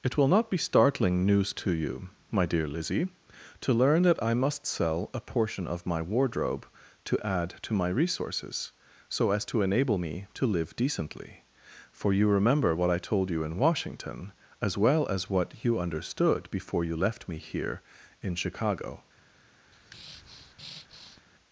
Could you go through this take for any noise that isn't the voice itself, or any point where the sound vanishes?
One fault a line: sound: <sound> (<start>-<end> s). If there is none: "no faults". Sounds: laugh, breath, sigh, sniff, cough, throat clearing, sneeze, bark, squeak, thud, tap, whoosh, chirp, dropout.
sound: breath (19.7-21.2 s)